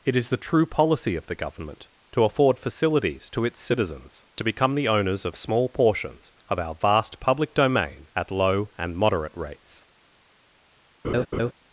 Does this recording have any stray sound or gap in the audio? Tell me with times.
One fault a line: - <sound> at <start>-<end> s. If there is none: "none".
- laugh at 11.0-11.5 s